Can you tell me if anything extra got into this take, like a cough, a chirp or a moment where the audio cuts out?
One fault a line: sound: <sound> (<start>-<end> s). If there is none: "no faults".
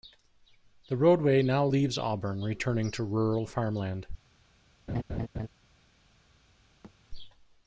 sound: laugh (4.9-5.5 s)
sound: thud (6.8-7.0 s)